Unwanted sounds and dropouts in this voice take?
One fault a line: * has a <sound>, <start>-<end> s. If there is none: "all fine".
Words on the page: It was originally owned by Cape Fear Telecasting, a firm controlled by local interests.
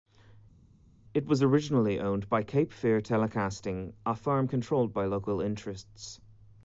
all fine